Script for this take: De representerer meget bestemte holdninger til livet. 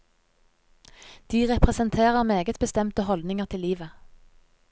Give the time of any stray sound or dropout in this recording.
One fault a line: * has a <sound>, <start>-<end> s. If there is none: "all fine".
all fine